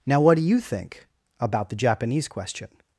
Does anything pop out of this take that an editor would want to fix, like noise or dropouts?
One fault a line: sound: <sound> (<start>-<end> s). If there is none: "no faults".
no faults